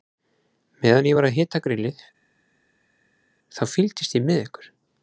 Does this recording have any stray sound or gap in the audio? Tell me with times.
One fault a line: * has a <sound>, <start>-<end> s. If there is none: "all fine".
all fine